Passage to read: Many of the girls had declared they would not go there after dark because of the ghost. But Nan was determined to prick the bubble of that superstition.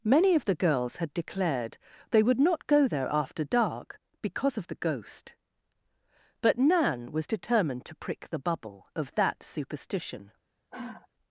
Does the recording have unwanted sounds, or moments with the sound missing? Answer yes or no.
yes